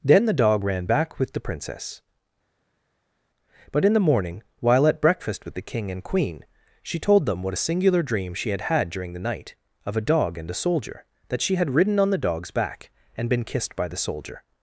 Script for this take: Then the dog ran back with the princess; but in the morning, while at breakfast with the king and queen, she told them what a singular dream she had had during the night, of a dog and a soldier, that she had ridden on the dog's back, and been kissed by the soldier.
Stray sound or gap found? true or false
false